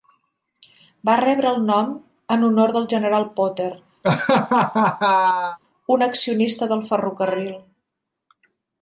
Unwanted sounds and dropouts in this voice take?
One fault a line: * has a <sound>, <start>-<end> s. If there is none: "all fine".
* has a laugh, 4.0-5.6 s